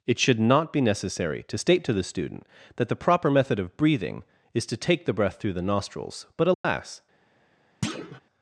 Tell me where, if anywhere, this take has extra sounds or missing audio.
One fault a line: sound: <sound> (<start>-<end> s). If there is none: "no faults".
sound: dropout (6.5-6.6 s)
sound: thud (7.8-8.2 s)